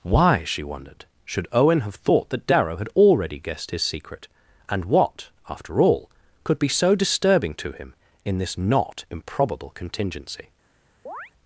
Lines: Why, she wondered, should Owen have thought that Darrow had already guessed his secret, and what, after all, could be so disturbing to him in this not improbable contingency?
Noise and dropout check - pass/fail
fail